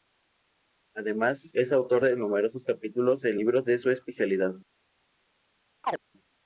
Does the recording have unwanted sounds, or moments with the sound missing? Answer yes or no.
yes